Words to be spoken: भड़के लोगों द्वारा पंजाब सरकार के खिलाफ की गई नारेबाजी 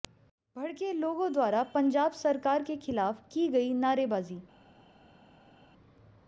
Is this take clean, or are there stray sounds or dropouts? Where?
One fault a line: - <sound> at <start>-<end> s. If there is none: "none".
none